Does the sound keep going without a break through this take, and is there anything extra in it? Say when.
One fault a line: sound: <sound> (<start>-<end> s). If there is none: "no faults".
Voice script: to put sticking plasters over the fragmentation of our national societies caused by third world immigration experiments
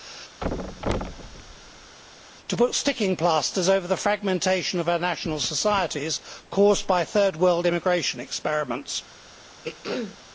sound: thud (0.4-2.0 s)
sound: throat clearing (9.6-10.2 s)